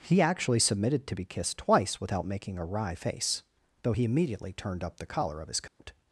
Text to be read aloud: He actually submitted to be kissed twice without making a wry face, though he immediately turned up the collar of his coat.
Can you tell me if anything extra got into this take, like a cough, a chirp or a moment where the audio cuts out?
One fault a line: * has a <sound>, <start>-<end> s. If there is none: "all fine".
* has a dropout, 5.7-5.8 s